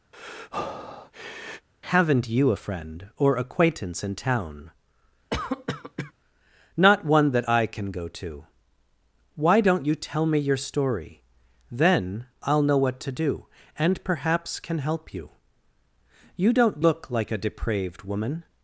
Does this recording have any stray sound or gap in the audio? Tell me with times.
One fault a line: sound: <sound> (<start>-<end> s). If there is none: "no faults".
sound: breath (0.1-1.7 s)
sound: cough (5.3-6.1 s)